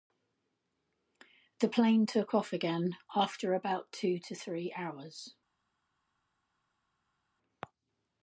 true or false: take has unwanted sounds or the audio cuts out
false